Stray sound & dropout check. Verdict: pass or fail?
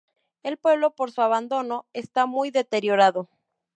pass